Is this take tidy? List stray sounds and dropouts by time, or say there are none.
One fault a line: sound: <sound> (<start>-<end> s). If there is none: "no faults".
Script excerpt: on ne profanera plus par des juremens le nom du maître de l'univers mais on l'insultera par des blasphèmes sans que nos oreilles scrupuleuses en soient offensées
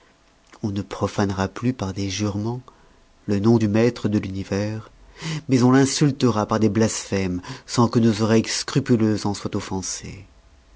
no faults